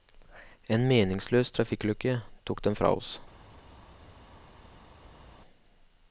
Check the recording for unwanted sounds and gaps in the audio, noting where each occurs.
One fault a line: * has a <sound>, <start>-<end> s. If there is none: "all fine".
all fine